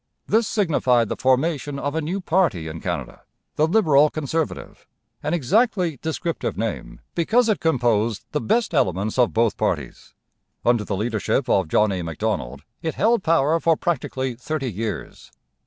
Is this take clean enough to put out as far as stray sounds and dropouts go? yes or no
yes